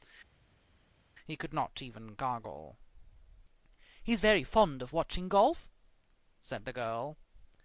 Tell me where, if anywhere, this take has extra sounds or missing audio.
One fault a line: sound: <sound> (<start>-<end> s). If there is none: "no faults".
no faults